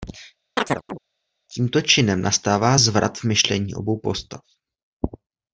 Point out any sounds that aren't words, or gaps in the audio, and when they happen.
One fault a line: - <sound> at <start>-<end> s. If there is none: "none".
- chirp at 0.6-1.0 s